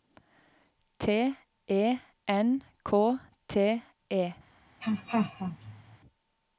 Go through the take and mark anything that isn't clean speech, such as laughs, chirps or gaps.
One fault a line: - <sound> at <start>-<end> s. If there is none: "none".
- laugh at 4.8-6.0 s